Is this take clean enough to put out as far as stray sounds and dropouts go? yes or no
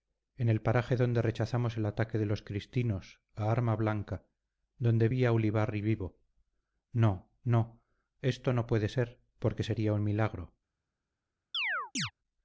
no